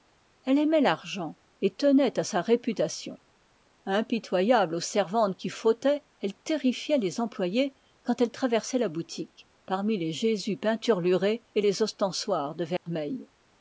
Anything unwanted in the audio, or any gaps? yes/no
yes